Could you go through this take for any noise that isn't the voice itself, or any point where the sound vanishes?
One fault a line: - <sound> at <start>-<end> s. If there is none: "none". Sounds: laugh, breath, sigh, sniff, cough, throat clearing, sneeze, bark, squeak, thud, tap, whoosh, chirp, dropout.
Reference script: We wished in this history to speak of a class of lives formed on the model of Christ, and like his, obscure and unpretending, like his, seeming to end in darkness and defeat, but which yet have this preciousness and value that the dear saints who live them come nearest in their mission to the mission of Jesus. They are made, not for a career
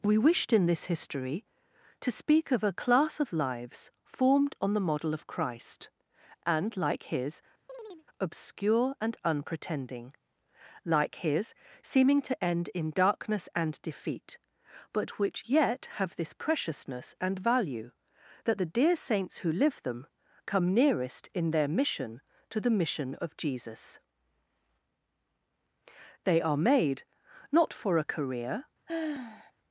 - chirp at 7.7-8.1 s
- sigh at 28.9-29.5 s